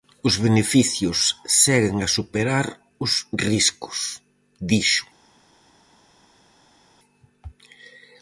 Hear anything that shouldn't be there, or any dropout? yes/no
no